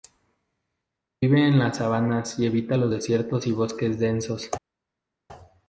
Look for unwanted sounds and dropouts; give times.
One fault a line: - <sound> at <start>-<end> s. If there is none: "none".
none